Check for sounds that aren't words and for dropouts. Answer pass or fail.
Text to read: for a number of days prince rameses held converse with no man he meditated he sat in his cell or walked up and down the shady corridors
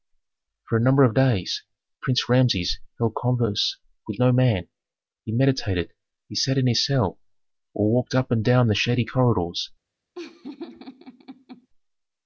fail